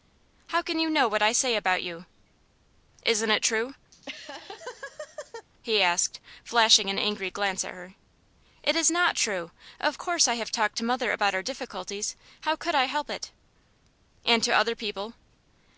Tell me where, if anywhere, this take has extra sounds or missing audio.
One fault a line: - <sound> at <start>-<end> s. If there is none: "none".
- laugh at 3.9-5.5 s